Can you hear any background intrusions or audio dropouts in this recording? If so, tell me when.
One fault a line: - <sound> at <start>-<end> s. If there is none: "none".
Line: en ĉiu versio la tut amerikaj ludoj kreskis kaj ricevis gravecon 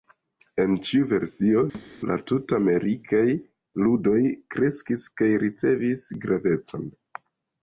- thud at 1.7-1.9 s